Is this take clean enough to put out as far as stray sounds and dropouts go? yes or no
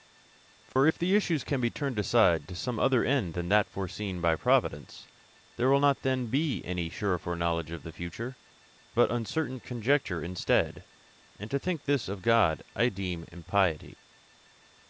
no